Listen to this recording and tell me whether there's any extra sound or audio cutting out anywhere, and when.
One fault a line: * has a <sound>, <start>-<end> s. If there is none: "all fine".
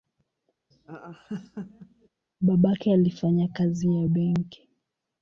* has a laugh, 0.7-2.1 s